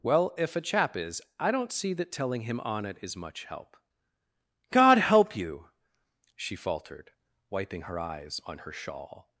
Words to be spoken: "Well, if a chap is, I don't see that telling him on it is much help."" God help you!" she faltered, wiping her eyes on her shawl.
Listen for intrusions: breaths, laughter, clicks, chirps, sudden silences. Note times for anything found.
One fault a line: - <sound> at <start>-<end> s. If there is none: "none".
none